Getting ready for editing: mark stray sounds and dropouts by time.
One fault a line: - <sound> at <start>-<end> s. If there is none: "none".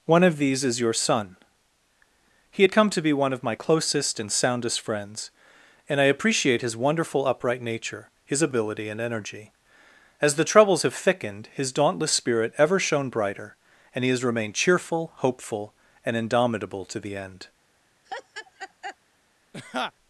- laugh at 18.1-19.0 s
- laugh at 19.5-19.9 s